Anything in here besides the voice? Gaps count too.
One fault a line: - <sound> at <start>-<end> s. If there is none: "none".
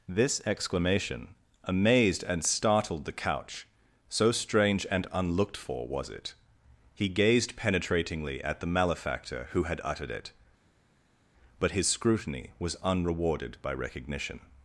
none